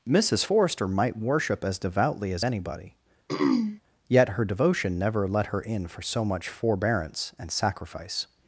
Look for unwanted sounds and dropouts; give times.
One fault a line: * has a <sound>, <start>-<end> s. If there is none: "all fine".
* has a throat clearing, 3.3-3.8 s